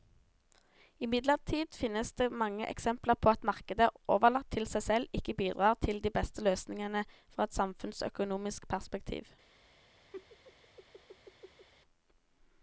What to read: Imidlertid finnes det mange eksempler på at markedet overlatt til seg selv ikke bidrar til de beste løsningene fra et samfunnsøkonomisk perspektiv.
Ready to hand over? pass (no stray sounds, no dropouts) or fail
fail